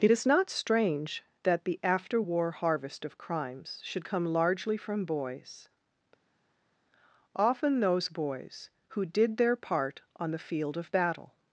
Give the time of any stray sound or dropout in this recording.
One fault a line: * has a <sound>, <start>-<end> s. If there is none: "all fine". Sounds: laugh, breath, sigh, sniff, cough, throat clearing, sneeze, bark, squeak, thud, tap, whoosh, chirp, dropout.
all fine